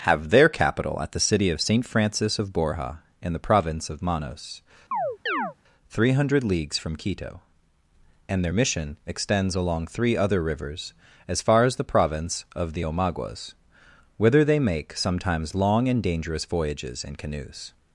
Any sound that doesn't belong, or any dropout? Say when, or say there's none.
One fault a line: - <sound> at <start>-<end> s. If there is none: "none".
- chirp at 4.9-5.5 s